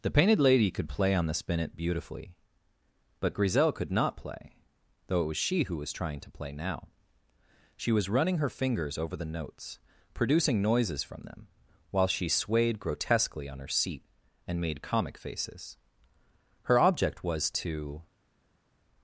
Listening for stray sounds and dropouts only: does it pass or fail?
pass